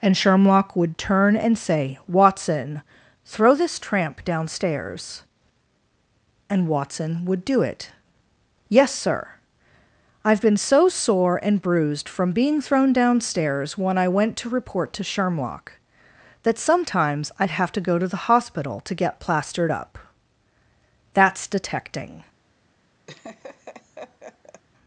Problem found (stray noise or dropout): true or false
true